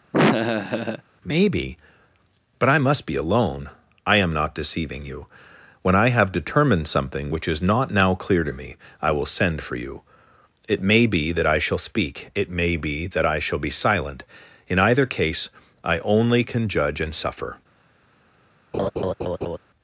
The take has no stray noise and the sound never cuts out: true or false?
false